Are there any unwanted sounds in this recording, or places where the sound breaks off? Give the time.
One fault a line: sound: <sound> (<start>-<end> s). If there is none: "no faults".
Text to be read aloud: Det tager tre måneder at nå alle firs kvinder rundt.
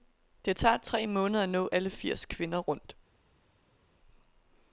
no faults